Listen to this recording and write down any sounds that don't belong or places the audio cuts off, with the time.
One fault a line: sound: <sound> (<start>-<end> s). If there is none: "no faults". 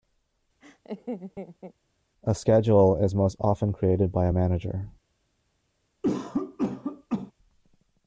sound: laugh (0.6-1.7 s)
sound: cough (6.0-7.3 s)